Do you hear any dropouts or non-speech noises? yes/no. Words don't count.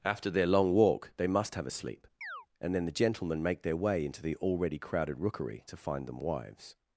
yes